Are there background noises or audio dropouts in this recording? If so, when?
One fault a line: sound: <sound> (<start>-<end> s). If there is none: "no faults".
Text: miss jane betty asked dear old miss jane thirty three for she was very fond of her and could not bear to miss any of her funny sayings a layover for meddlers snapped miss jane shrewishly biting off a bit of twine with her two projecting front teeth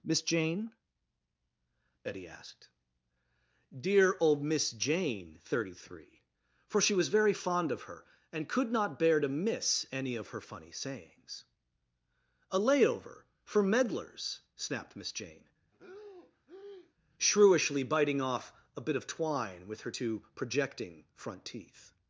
sound: breath (15.7-16.9 s)